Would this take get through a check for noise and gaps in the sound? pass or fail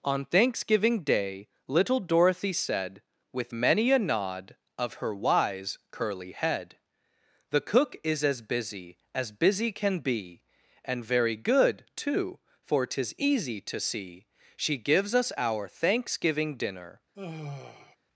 fail